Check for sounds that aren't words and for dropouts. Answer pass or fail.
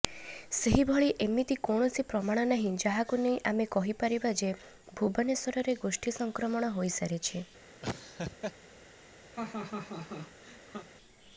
fail